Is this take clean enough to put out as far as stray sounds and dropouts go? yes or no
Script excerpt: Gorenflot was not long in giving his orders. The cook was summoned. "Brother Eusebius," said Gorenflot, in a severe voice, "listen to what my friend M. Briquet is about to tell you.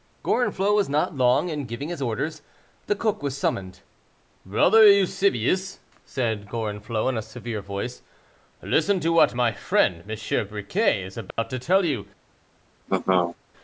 no